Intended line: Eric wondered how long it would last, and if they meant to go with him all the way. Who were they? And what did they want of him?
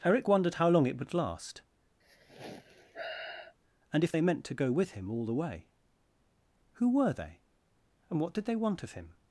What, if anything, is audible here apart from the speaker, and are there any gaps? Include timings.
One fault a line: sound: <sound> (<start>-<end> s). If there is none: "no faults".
sound: sigh (2.0-3.5 s)